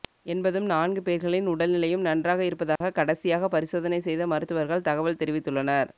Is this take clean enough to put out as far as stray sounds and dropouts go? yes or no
no